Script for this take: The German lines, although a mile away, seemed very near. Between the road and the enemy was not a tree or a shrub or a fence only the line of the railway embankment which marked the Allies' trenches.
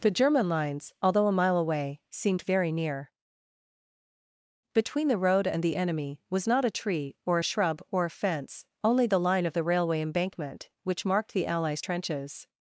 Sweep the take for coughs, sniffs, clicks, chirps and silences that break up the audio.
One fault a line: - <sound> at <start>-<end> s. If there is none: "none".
none